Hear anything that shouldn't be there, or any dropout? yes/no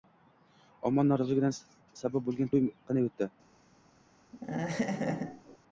yes